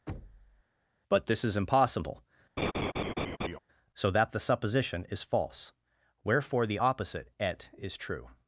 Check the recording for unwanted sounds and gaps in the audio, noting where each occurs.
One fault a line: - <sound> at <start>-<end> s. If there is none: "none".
- thud at 0.1-0.6 s
- laugh at 2.6-3.6 s